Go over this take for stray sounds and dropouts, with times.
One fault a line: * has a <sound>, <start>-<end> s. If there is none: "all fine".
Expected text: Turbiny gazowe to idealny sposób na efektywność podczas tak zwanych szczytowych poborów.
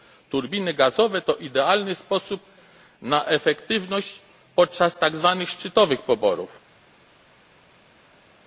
all fine